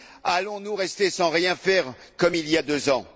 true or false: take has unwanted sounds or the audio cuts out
false